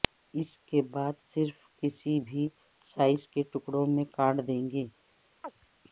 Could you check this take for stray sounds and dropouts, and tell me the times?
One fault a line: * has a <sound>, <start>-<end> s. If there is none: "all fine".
* has a chirp, 5.4-5.5 s